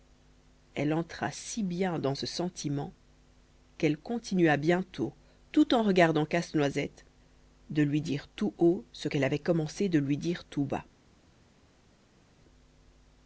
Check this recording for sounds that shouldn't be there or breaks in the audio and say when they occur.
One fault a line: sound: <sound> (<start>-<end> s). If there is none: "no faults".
no faults